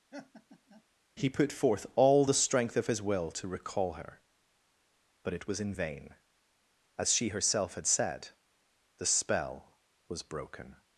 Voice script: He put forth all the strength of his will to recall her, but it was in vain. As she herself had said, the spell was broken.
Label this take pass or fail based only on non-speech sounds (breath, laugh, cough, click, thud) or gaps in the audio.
fail